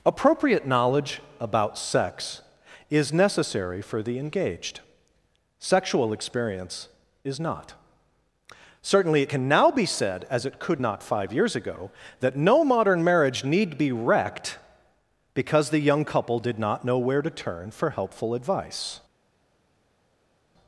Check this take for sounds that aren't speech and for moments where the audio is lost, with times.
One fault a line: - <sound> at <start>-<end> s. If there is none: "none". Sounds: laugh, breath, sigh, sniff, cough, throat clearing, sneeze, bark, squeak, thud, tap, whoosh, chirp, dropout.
none